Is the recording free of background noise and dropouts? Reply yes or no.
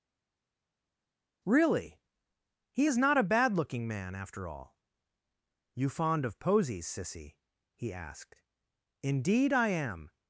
yes